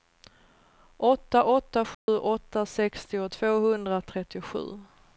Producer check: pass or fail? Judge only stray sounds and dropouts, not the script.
fail